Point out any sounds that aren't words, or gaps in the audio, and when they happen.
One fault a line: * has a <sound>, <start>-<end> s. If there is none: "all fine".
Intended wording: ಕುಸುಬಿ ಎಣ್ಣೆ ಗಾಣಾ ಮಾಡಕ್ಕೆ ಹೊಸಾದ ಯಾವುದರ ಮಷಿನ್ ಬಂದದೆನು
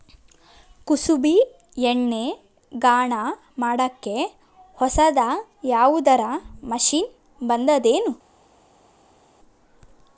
all fine